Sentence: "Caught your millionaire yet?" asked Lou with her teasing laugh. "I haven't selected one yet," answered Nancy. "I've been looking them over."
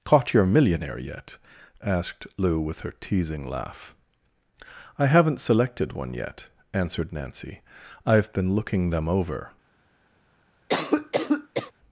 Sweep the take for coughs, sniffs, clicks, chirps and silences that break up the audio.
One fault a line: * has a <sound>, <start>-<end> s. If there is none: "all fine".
* has a cough, 10.7-11.7 s